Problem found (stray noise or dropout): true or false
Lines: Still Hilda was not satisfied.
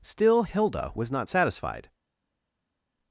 false